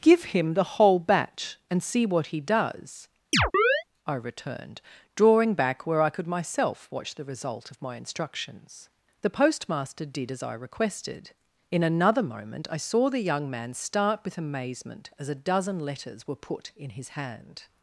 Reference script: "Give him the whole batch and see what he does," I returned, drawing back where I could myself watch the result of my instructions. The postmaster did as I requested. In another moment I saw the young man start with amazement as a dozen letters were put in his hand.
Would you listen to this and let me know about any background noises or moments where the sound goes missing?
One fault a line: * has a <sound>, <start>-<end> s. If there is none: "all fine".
* has a chirp, 3.3-3.8 s